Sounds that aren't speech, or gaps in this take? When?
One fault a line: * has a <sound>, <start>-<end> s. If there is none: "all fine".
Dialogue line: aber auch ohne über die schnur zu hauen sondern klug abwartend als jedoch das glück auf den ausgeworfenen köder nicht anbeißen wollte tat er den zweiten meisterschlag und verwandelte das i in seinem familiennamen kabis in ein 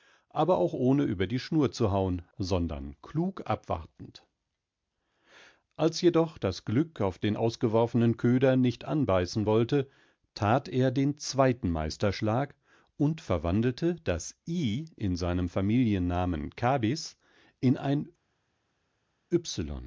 all fine